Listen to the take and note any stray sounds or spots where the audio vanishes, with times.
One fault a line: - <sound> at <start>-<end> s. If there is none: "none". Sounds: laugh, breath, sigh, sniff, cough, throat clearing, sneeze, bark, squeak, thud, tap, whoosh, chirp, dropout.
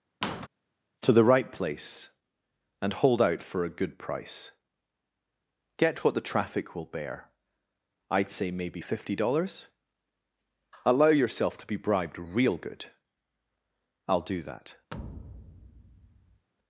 - squeak at 0.2-0.5 s
- thud at 14.9-16.5 s